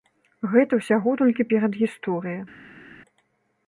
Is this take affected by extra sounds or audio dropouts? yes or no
no